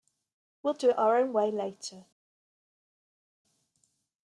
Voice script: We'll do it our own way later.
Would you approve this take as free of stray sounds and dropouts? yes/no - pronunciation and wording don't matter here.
yes